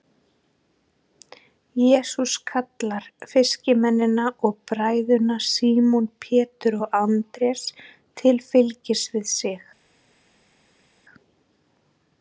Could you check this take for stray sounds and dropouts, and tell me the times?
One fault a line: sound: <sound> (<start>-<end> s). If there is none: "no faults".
no faults